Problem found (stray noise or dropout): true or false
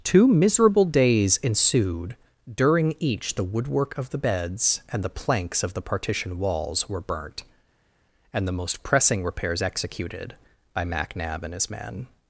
false